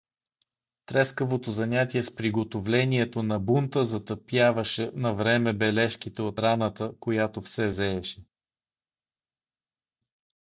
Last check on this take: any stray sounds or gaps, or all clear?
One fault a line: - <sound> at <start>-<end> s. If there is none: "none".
none